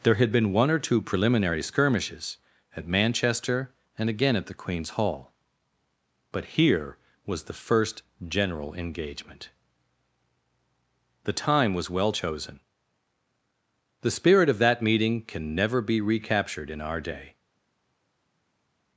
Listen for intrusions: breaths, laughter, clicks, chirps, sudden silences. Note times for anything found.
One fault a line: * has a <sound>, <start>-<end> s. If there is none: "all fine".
all fine